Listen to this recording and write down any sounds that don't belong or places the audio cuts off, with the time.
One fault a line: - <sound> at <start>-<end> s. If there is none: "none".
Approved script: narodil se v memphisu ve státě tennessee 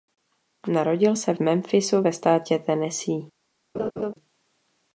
- laugh at 3.7-4.1 s